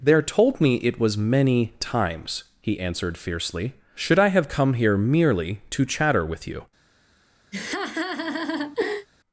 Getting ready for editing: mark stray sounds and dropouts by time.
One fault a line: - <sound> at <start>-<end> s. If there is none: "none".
- laugh at 7.5-9.1 s